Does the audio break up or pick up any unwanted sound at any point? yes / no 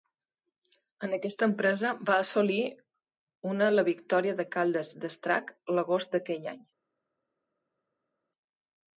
no